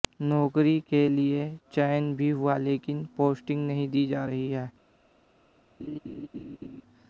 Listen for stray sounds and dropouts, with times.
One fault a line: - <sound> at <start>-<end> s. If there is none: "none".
- laugh at 5.8-6.8 s